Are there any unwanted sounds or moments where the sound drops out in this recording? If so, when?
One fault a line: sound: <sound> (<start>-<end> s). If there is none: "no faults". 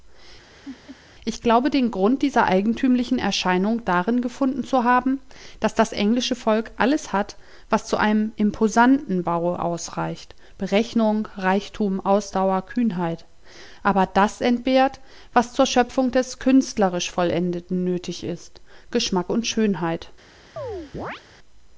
sound: laugh (0.5-1.0 s)
sound: chirp (20.6-21.2 s)